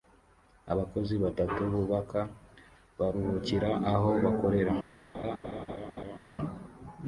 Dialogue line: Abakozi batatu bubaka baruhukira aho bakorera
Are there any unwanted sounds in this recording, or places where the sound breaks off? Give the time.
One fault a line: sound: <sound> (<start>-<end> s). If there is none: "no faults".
sound: laugh (5.1-6.2 s)